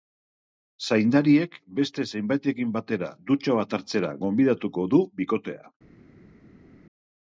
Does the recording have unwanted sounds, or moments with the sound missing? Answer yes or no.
no